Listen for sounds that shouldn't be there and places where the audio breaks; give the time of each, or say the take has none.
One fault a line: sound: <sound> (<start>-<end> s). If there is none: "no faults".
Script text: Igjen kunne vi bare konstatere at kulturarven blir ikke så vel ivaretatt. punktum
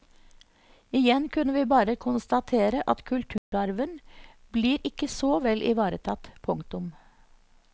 sound: dropout (3.4-3.5 s)